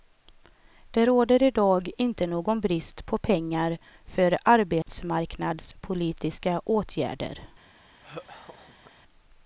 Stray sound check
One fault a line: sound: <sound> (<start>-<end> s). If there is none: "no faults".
sound: dropout (4.8-4.9 s)
sound: laugh (8.0-8.9 s)